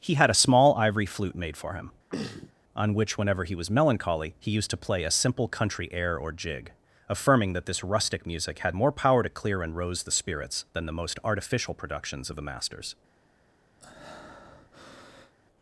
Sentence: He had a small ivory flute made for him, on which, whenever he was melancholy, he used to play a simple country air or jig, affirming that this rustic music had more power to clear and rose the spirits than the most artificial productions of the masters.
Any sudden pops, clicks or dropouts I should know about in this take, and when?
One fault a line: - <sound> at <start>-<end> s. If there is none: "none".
- throat clearing at 2.1-2.5 s
- breath at 13.8-15.3 s